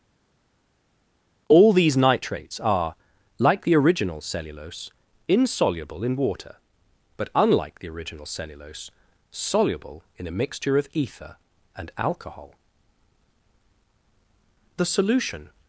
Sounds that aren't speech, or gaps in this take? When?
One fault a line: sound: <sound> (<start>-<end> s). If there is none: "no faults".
no faults